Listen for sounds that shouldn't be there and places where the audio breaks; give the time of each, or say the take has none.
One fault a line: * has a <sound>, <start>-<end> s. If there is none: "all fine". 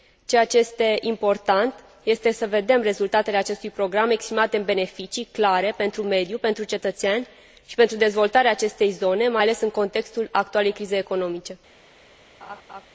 * has a laugh, 12.4-12.9 s